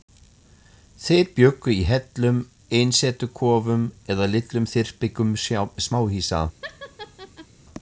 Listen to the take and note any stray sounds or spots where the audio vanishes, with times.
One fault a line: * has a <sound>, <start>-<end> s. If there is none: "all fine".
* has a laugh, 6.6-7.5 s